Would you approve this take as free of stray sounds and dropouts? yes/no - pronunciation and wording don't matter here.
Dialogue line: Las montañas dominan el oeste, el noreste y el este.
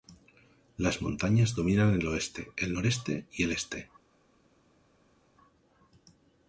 yes